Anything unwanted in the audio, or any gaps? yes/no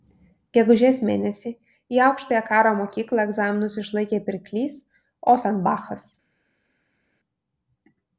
no